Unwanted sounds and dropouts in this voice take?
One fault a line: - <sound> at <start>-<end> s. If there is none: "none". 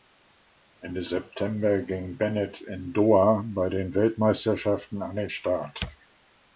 none